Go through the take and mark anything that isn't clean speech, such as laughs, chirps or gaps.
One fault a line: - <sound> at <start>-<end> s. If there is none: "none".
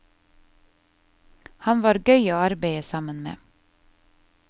none